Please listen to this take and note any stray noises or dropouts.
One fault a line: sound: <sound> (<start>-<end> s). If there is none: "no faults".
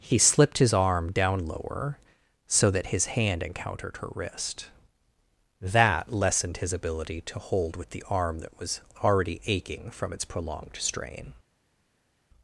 no faults